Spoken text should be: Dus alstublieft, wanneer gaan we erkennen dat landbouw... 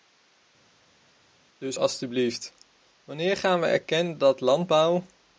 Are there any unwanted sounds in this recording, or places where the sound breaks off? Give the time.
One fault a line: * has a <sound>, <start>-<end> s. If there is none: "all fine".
all fine